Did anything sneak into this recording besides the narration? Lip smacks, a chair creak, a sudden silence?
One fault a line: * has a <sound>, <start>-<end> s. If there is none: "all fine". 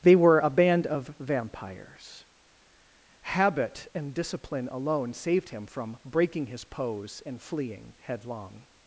all fine